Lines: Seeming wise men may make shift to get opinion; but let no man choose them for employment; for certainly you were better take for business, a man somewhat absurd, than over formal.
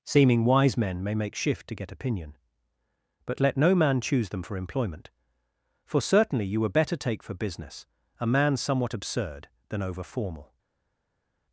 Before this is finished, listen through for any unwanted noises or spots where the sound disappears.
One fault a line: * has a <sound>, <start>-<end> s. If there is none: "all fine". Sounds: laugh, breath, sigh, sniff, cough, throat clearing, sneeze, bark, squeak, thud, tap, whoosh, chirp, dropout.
all fine